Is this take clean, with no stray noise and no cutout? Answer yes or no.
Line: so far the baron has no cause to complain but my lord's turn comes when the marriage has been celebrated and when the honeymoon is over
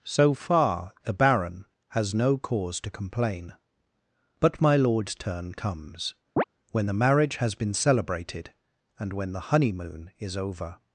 no